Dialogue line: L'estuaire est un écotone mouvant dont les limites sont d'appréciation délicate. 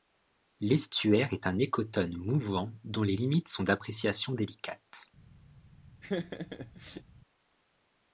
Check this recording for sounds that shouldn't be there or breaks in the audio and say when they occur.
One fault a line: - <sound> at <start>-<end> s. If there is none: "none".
- laugh at 6.0-7.0 s